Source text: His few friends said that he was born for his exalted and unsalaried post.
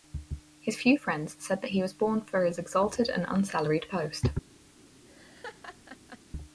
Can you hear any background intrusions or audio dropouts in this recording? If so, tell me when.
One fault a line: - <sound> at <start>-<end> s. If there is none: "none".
- laugh at 5.1-6.2 s